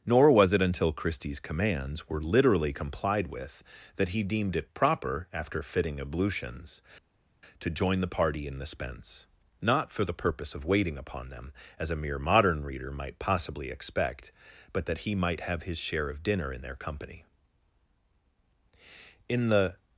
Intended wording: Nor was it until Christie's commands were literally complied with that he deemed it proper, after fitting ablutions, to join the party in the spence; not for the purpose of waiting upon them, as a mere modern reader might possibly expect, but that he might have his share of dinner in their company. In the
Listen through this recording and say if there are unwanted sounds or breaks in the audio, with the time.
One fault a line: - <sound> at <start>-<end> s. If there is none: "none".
none